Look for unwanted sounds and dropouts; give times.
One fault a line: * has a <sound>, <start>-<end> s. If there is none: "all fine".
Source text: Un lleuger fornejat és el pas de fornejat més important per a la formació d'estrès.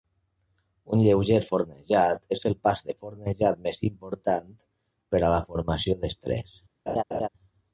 * has a laugh, 6.9-7.3 s